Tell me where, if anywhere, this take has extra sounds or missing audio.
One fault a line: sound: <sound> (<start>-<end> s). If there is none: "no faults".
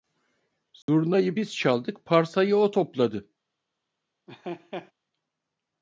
sound: dropout (0.8-0.9 s)
sound: laugh (4.3-4.9 s)